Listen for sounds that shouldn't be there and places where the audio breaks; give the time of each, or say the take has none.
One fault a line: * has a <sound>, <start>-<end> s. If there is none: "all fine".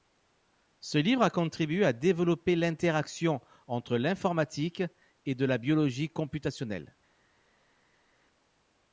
all fine